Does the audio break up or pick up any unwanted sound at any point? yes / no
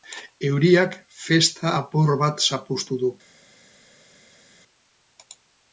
no